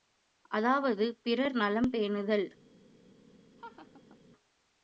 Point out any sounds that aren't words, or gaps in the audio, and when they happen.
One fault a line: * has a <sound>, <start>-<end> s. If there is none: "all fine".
* has a laugh, 3.6-4.2 s